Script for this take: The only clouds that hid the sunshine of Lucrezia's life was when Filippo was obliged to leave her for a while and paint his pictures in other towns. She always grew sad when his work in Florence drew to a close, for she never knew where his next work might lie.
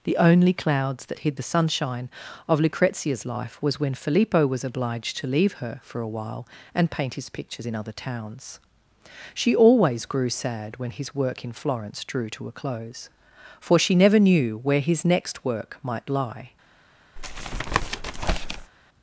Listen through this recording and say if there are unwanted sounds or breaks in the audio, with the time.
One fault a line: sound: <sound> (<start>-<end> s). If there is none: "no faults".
sound: tap (17.2-18.7 s)